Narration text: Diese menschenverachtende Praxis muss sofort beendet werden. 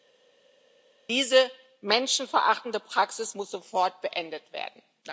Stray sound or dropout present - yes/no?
no